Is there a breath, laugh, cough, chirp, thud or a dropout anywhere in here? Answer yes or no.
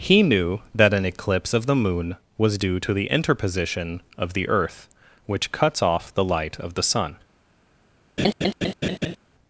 yes